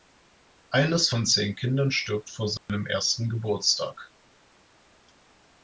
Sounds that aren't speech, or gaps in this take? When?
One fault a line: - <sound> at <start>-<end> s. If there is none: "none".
- dropout at 2.6-2.7 s